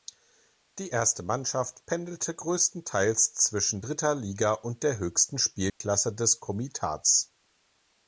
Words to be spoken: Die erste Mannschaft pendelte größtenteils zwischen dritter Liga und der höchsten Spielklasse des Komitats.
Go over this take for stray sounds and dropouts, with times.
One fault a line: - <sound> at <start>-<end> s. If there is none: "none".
- dropout at 5.7-5.8 s